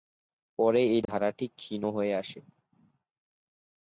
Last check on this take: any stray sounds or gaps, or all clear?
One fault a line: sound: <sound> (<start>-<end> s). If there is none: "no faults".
sound: dropout (1.0-1.1 s)